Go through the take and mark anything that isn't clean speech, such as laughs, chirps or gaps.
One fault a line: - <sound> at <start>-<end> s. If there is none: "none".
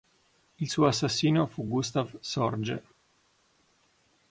none